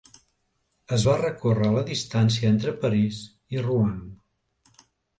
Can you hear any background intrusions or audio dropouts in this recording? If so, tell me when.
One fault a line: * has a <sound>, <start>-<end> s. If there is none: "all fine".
all fine